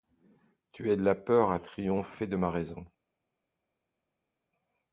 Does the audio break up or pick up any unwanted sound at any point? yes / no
no